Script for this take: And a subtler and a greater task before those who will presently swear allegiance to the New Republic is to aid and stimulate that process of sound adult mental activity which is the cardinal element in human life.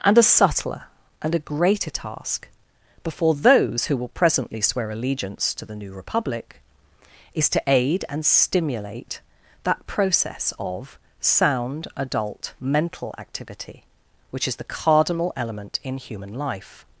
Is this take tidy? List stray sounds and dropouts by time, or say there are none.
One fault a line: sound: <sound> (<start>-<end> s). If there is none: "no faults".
no faults